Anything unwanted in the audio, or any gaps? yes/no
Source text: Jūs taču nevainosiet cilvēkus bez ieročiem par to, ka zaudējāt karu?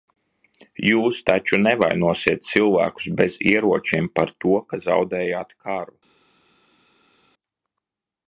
no